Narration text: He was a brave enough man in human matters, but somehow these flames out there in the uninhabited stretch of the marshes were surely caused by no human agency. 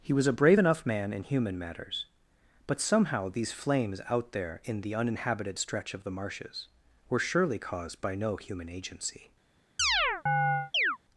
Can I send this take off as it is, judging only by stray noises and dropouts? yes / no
no